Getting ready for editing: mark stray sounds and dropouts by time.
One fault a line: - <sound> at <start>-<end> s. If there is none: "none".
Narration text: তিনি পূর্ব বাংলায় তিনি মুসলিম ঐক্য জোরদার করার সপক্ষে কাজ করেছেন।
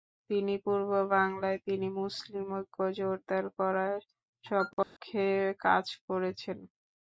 - dropout at 4.8-5.0 s